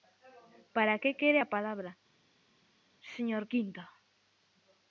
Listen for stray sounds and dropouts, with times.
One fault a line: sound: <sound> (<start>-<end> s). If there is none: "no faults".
no faults